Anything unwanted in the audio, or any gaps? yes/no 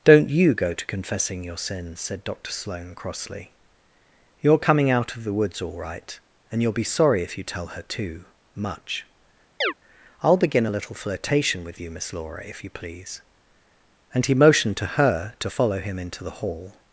yes